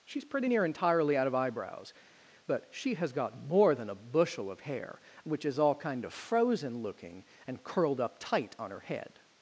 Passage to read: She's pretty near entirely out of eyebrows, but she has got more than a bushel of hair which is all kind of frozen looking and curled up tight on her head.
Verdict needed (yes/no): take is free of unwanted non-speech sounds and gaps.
yes